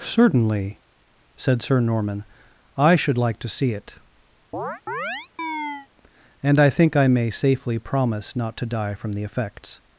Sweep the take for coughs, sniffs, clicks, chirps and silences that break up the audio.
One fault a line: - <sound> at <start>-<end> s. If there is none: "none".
- chirp at 4.5-5.9 s